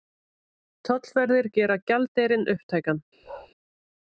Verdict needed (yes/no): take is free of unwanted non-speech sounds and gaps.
no